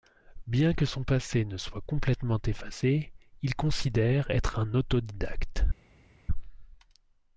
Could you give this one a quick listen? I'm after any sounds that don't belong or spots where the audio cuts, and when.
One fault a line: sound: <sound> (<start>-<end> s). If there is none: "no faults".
no faults